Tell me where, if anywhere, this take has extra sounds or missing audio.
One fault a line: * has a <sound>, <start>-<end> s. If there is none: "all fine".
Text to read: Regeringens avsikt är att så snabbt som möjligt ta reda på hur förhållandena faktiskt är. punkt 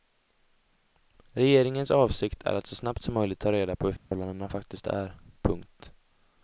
* has a dropout, 4.0-4.1 s